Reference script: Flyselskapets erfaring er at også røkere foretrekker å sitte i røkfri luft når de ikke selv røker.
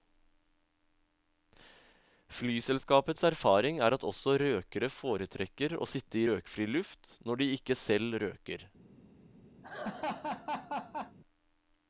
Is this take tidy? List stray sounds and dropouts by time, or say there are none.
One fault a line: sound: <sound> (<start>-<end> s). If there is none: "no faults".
sound: laugh (9.6-11.2 s)